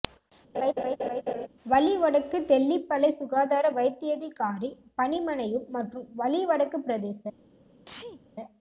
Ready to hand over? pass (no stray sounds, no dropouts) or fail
fail